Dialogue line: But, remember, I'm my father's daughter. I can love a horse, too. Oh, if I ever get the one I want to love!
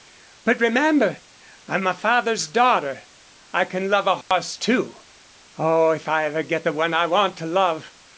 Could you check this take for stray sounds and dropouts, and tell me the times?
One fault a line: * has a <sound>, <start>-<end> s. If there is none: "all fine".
* has a dropout, 4.2-4.3 s